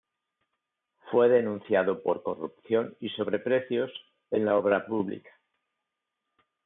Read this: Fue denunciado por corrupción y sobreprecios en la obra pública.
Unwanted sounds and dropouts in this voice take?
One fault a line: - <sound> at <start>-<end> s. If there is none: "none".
none